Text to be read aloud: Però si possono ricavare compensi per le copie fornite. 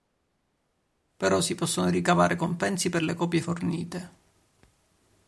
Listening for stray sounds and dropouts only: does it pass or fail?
pass